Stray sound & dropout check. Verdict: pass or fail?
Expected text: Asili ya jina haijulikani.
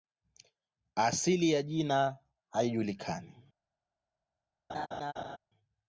fail